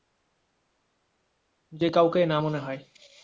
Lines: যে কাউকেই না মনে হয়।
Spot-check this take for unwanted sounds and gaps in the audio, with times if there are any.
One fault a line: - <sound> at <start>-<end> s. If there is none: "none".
none